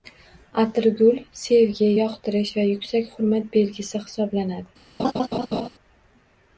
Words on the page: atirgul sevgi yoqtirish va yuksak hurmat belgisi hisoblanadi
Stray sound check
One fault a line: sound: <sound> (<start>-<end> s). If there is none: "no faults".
sound: laugh (5.0-5.7 s)